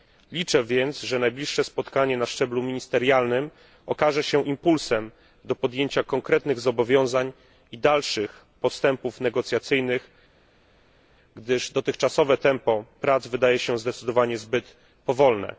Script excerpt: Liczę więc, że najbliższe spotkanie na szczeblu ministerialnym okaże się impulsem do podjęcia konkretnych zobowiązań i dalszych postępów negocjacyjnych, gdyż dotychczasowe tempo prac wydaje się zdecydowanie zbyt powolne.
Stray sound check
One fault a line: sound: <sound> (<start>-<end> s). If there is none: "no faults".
no faults